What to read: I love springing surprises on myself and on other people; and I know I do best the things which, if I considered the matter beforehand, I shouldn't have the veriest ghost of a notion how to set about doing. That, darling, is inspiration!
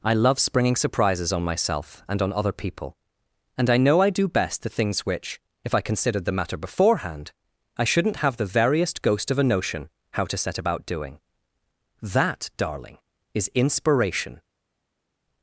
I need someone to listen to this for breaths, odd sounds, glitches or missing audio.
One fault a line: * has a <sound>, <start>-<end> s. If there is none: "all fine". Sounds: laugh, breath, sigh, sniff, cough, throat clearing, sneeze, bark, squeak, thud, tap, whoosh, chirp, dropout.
all fine